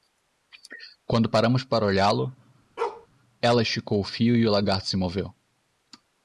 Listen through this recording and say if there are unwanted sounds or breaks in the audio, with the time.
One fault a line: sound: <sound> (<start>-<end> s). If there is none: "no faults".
sound: bark (2.8-3.1 s)